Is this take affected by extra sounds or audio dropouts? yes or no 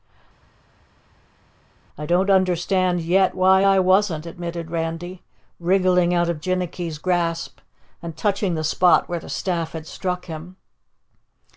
no